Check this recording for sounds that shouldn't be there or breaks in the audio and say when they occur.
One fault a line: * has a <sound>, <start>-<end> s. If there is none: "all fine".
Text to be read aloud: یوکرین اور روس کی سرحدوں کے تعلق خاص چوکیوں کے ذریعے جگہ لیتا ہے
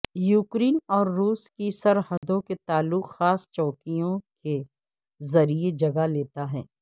* has a dropout, 2.2-2.2 s